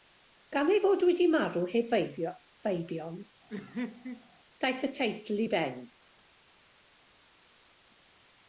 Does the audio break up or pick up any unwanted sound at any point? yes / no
yes